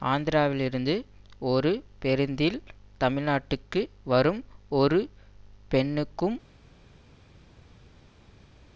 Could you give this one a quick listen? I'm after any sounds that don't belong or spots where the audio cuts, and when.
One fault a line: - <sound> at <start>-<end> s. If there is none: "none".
none